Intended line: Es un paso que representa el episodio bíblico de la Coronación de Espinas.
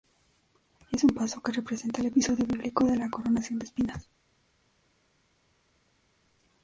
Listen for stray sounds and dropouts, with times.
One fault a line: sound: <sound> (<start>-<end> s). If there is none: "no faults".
no faults